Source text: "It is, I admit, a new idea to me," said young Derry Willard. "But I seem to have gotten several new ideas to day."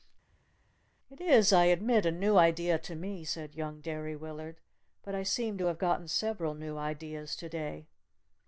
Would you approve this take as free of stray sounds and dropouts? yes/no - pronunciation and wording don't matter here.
yes